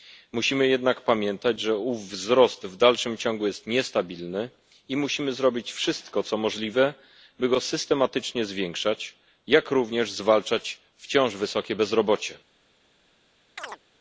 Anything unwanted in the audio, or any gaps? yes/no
yes